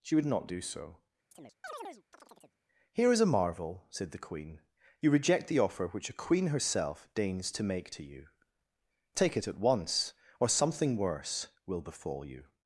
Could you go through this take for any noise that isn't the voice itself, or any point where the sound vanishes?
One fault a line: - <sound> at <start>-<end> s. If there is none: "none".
- chirp at 1.3-2.6 s